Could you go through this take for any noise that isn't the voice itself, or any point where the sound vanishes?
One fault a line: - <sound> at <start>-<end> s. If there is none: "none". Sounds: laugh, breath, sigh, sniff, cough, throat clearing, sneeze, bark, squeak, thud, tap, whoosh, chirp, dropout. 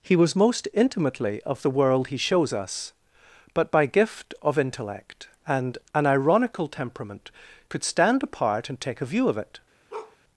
- bark at 9.9-10.2 s